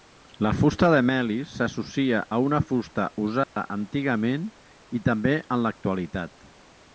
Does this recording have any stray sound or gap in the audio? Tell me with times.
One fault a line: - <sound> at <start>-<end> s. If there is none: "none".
- dropout at 3.4-3.6 s